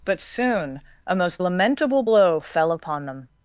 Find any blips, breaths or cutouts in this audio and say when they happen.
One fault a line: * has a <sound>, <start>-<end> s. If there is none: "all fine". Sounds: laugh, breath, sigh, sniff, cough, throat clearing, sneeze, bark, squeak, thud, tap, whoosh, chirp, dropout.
all fine